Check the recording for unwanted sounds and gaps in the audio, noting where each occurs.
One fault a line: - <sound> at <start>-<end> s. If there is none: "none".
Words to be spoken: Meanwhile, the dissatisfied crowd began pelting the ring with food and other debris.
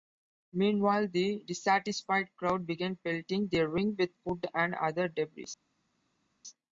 none